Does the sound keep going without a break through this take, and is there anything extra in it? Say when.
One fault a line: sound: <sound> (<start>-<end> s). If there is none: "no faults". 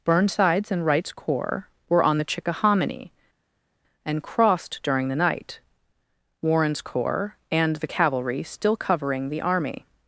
no faults